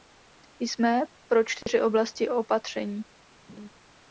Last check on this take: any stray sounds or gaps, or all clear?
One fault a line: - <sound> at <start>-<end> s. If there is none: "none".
- dropout at 1.6-1.7 s
- laugh at 3.5-3.7 s